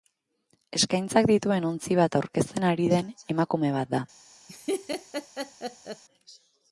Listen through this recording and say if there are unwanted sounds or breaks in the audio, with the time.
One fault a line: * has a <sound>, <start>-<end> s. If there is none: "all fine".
* has a laugh, 4.5-6.0 s